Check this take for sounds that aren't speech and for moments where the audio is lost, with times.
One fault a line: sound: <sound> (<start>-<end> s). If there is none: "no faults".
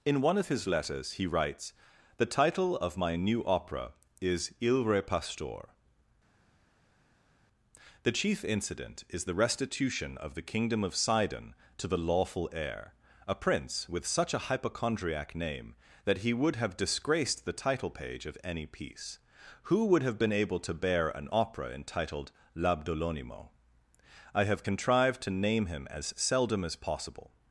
no faults